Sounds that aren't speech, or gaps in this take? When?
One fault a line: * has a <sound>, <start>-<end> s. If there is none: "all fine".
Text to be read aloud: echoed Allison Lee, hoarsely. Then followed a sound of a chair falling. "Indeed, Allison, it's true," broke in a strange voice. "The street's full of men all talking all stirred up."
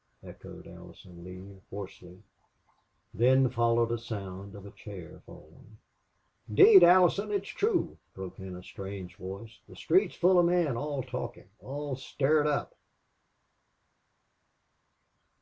all fine